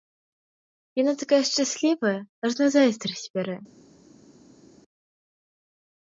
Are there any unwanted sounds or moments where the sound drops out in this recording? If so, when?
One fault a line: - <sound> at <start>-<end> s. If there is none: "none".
none